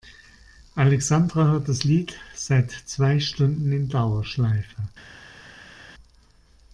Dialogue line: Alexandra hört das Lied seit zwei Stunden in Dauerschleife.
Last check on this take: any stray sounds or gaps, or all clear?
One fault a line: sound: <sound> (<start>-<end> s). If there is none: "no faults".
no faults